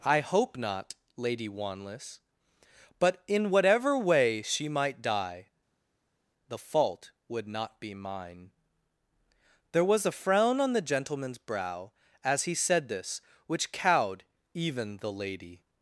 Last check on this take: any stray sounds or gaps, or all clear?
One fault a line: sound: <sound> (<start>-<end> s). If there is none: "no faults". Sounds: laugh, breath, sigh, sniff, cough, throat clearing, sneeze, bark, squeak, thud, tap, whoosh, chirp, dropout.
no faults